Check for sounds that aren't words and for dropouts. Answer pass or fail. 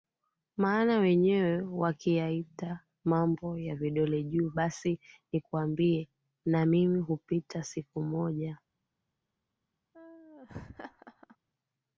fail